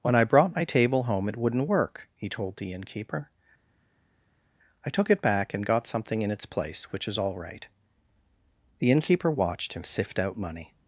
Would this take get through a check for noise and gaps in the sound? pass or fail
pass